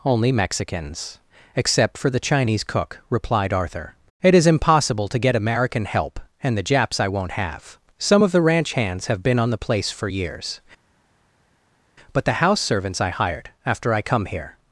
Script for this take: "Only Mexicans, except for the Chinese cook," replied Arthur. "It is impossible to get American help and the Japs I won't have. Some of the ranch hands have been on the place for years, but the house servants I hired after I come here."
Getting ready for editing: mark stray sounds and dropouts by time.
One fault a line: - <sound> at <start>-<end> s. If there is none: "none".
none